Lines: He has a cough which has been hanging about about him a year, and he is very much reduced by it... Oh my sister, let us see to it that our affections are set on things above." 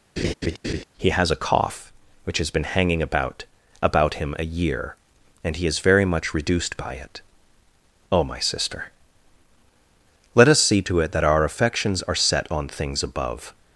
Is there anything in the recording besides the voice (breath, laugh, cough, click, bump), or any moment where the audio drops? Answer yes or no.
yes